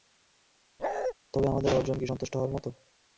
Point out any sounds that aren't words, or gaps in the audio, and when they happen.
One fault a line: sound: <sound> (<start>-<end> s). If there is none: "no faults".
sound: bark (0.8-1.1 s)